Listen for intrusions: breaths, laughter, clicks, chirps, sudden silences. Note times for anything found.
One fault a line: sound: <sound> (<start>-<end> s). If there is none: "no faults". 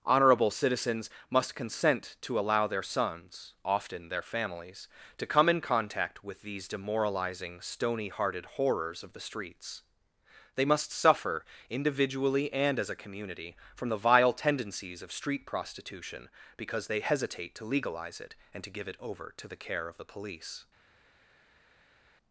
no faults